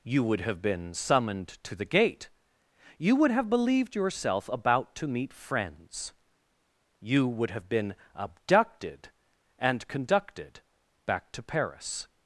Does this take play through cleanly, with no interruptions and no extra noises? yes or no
yes